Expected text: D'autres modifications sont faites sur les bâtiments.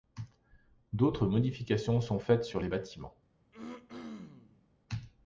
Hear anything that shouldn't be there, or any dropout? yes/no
yes